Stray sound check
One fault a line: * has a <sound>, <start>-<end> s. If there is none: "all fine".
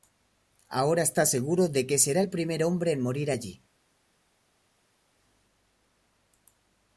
all fine